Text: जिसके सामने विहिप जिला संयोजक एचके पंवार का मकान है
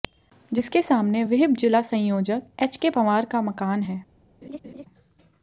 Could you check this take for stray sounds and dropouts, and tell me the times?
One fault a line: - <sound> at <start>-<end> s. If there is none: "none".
- laugh at 4.4-4.9 s